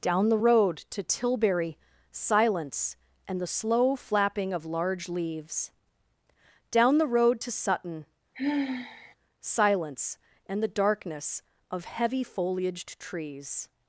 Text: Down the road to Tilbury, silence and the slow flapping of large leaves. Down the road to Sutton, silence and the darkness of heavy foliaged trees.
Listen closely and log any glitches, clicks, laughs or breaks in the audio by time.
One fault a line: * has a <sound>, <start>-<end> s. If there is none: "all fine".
* has a sigh, 8.3-9.2 s